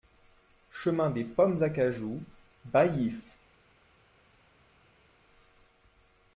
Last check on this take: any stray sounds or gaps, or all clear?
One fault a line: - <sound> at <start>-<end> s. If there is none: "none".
none